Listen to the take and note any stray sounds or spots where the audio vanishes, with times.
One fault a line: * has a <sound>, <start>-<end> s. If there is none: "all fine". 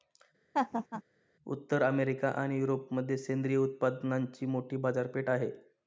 * has a laugh, 0.5-1.0 s